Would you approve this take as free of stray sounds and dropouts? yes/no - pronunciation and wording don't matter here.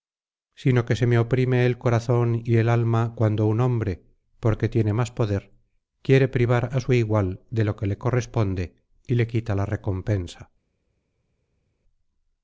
yes